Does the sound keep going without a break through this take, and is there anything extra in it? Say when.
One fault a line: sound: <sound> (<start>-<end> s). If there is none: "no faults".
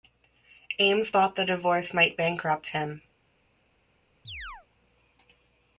sound: chirp (4.2-4.7 s)